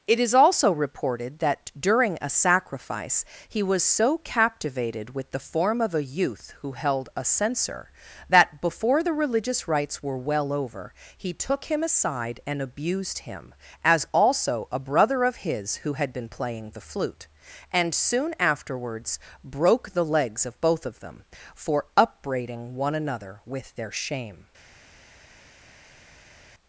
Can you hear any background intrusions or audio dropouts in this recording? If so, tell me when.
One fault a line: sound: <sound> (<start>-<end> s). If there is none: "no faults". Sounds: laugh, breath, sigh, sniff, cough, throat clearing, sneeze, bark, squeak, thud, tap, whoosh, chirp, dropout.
no faults